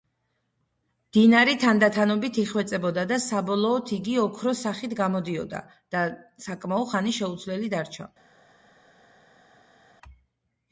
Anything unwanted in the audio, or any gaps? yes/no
no